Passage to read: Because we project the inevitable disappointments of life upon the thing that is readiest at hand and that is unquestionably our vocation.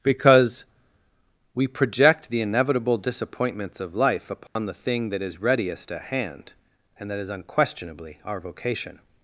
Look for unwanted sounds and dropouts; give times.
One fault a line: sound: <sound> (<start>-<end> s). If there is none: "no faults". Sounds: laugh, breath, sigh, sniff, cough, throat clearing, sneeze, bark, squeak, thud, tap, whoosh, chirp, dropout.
sound: dropout (4.5-4.6 s)